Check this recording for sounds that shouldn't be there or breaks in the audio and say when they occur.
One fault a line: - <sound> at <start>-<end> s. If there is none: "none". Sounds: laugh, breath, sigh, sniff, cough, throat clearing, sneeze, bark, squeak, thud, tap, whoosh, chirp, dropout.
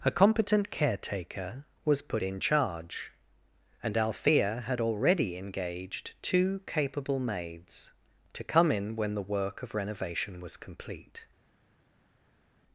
none